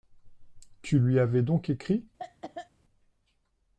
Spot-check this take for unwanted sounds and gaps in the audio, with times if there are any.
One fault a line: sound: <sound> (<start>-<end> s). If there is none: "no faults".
sound: cough (2.2-2.7 s)